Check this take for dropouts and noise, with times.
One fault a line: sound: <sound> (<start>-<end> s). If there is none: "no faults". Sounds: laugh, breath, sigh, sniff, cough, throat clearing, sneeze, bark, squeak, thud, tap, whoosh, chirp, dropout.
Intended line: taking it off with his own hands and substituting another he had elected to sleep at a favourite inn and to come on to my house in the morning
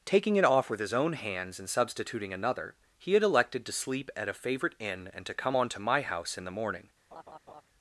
sound: laugh (7.1-7.6 s)